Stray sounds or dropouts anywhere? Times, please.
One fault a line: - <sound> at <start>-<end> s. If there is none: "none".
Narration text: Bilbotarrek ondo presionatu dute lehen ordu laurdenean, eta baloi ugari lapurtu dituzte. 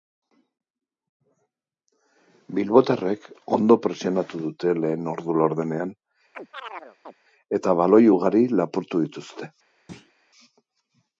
- chirp at 6.3-7.1 s
- thud at 9.9-10.1 s